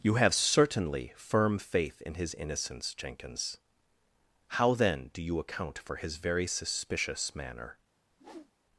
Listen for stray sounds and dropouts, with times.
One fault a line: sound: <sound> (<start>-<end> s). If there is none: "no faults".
sound: whoosh (8.1-8.5 s)